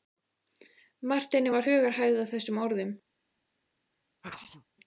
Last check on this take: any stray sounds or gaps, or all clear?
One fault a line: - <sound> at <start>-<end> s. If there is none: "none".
- sneeze at 4.2-4.6 s